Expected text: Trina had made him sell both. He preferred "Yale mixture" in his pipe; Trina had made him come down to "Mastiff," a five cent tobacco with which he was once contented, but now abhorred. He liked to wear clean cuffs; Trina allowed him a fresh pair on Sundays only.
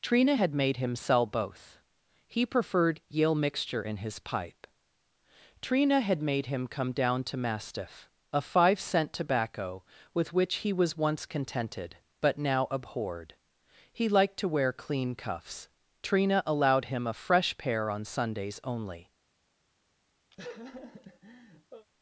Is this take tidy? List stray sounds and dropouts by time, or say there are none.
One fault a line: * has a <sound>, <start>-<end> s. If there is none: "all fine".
* has a laugh, 20.3-21.9 s